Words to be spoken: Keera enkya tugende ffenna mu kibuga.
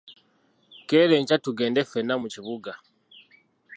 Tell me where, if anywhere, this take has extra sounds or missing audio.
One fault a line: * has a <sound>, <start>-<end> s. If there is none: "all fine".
all fine